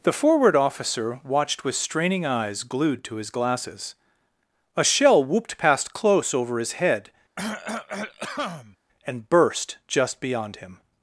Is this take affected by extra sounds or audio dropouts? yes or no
yes